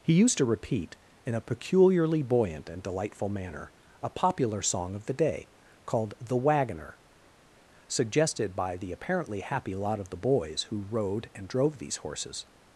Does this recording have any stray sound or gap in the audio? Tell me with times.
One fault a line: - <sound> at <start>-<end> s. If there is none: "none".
none